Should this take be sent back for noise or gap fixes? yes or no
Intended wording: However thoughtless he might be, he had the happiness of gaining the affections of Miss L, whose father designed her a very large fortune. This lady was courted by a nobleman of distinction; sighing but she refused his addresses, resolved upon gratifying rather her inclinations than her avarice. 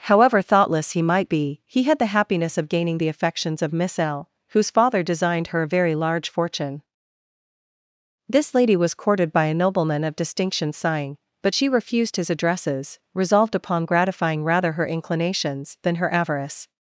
no